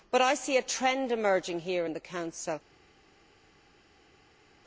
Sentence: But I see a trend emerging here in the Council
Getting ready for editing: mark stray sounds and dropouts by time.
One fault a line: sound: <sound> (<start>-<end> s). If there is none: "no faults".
no faults